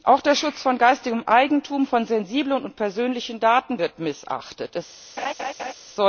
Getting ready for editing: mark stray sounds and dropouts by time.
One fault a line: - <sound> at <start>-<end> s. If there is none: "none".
- laugh at 5.2-5.7 s